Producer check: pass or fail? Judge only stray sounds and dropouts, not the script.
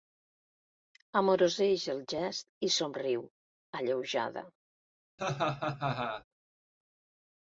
fail